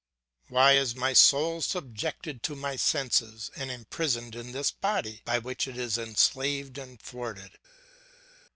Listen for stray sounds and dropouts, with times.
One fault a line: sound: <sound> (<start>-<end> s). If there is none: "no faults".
no faults